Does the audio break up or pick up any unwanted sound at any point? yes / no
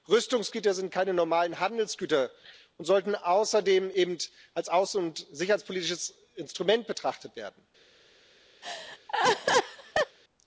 yes